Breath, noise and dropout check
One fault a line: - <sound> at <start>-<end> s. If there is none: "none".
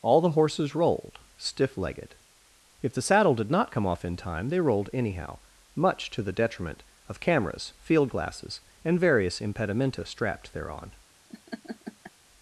- laugh at 11.3-12.1 s